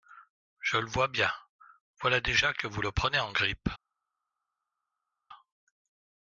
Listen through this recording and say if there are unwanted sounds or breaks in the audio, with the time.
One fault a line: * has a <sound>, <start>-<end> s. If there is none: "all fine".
all fine